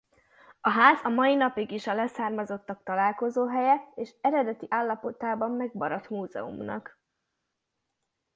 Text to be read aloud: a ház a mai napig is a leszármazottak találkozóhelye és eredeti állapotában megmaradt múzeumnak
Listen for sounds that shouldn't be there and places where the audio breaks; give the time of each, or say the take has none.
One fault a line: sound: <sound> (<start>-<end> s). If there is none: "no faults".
no faults